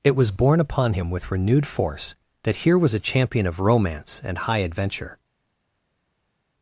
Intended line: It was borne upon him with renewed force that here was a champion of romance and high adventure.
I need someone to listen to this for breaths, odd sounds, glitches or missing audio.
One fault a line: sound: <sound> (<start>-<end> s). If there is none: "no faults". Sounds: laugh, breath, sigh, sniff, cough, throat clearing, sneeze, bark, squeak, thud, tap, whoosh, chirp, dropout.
no faults